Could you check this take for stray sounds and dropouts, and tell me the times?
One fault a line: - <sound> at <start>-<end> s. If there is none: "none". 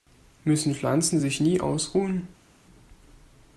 none